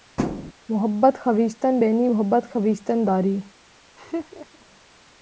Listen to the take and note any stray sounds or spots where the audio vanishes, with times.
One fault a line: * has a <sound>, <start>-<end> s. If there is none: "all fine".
* has a thud, 0.2-0.5 s
* has a laugh, 4.0-4.7 s